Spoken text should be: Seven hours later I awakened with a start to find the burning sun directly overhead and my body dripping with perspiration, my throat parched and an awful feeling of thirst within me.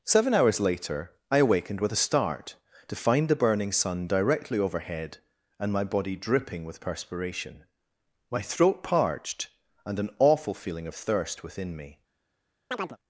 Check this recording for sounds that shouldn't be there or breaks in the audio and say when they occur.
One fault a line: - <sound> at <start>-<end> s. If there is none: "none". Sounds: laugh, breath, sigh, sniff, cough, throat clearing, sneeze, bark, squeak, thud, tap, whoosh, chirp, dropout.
- chirp at 12.7-13.0 s